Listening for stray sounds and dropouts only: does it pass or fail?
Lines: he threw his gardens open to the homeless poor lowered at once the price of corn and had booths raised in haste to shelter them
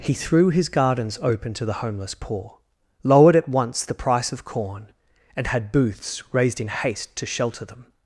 pass